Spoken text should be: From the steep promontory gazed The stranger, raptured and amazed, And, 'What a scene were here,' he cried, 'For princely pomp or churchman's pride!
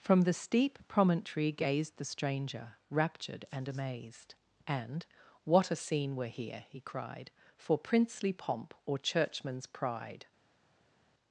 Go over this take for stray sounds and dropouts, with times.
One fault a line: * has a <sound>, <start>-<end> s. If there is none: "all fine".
all fine